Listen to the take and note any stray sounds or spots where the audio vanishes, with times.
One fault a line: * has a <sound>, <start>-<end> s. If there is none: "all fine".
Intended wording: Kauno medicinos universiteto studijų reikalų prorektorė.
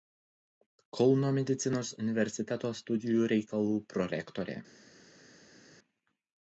all fine